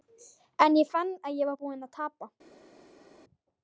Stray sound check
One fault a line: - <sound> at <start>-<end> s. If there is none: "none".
none